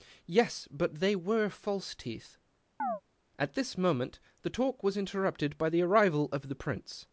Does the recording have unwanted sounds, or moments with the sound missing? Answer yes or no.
yes